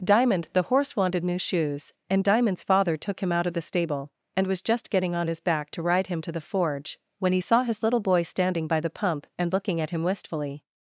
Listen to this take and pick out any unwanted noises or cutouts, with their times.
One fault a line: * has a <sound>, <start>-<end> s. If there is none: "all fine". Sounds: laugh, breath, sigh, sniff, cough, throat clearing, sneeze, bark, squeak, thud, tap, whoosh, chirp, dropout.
all fine